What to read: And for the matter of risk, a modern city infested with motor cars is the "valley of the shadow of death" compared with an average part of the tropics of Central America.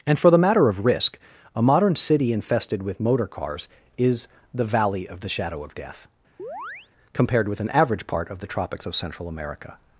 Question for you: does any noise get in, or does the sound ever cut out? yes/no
yes